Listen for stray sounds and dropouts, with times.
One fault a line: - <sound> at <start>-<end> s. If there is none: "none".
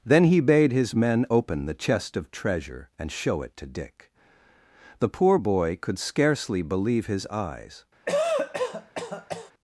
- cough at 8.1-9.5 s